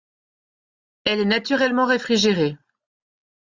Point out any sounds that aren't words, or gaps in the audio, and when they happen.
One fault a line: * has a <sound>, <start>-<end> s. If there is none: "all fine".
all fine